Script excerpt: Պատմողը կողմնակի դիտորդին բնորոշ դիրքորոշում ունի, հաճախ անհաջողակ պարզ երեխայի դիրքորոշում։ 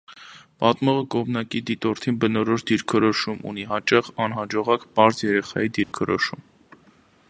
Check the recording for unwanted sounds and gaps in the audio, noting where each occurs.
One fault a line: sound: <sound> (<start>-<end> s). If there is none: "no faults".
sound: dropout (5.8-5.9 s)